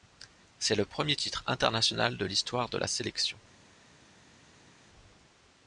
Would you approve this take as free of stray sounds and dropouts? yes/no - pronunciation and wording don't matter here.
yes